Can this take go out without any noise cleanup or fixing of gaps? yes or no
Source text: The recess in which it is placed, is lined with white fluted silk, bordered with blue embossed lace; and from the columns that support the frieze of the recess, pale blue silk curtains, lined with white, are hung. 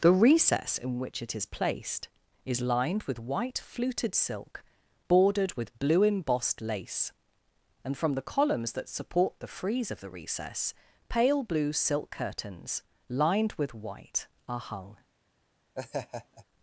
no